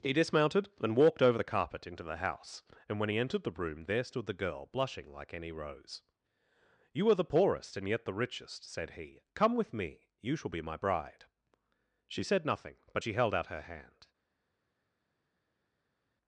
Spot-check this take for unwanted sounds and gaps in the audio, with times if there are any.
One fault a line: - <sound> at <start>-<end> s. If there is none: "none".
none